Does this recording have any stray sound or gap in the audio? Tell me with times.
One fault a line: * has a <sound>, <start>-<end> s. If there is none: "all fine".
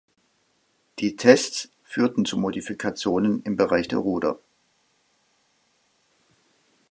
all fine